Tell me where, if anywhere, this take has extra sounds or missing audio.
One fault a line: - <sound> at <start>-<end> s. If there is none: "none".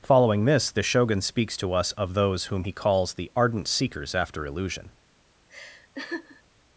- laugh at 5.5-6.4 s